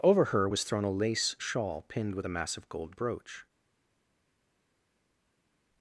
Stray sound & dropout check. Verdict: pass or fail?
pass